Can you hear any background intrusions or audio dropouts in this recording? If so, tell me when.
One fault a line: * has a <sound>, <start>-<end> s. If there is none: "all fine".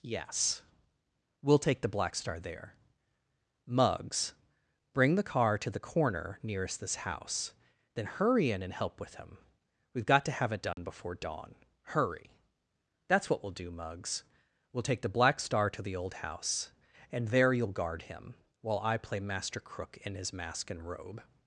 * has a dropout, 10.7-10.8 s